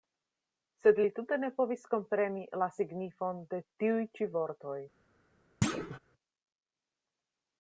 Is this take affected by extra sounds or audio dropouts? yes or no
yes